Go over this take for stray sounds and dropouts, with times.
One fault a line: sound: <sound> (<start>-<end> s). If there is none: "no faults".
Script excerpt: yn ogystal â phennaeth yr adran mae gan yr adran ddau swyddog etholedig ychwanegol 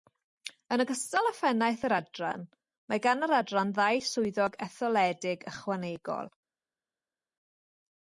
no faults